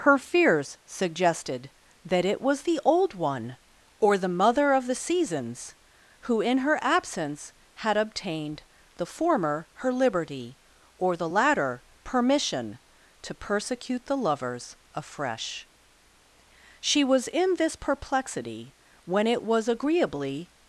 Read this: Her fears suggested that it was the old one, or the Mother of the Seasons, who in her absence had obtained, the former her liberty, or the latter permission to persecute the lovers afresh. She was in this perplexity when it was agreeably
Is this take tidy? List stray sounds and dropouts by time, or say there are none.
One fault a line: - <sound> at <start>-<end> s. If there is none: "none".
none